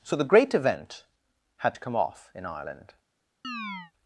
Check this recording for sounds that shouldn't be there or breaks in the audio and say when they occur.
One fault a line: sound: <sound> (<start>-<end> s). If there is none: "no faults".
sound: chirp (3.4-3.9 s)